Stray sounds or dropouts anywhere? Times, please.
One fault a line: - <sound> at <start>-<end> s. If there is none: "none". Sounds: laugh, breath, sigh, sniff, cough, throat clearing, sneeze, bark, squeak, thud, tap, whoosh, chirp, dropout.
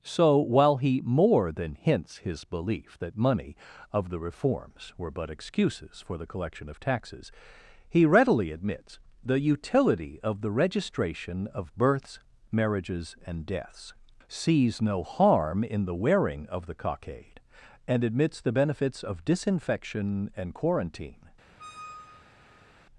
- squeak at 21.6-22.7 s